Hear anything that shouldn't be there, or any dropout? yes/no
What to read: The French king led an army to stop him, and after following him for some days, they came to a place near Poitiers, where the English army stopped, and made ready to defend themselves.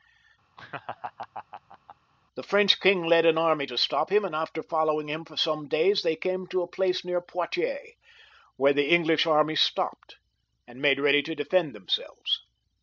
yes